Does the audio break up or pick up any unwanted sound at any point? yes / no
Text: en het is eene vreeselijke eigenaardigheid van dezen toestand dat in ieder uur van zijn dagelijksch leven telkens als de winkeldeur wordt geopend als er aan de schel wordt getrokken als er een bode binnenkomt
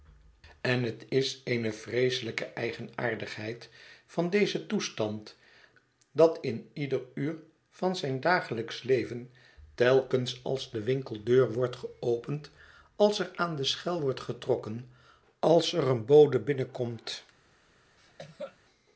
yes